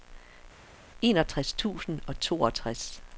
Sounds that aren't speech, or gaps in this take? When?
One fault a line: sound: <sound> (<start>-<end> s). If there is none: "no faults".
no faults